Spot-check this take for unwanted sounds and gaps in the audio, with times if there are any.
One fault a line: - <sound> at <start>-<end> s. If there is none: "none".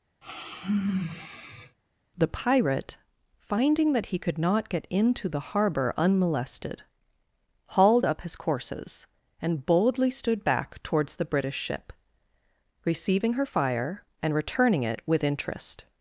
- sigh at 0.2-1.8 s